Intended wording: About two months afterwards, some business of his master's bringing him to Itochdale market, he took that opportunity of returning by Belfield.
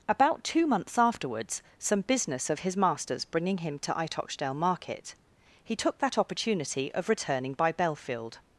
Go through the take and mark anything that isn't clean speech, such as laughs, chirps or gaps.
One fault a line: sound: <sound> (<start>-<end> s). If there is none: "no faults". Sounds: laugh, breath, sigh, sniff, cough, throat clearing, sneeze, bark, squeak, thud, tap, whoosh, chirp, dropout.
no faults